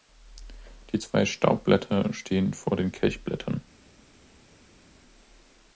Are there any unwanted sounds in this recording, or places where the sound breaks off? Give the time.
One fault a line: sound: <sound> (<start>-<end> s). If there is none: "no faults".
no faults